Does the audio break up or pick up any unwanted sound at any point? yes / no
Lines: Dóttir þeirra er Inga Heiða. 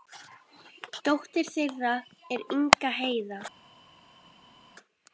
no